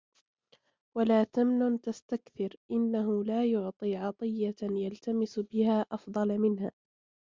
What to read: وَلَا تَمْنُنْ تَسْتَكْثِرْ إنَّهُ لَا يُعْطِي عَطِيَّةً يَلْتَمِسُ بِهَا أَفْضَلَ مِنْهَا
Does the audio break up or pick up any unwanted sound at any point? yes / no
no